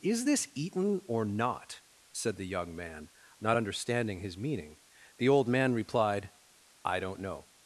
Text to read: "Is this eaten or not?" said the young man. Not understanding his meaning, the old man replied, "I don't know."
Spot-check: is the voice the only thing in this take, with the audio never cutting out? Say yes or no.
yes